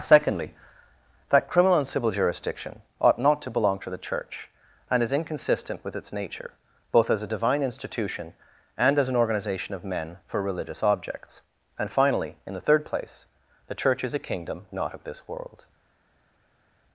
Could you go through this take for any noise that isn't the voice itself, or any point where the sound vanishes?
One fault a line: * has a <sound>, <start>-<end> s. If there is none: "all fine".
all fine